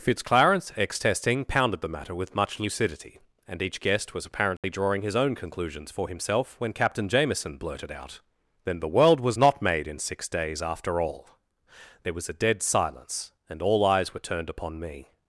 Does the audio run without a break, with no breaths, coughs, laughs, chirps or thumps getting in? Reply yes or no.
no